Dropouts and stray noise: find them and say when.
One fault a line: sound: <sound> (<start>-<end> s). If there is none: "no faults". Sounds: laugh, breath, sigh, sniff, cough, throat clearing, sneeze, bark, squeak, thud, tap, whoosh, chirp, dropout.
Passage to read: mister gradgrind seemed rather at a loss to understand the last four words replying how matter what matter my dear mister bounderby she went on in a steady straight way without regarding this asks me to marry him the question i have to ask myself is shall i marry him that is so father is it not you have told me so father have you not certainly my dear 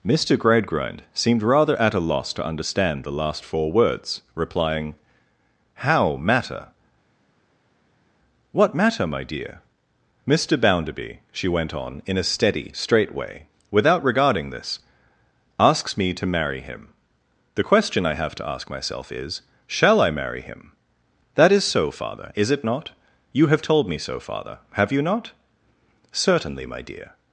no faults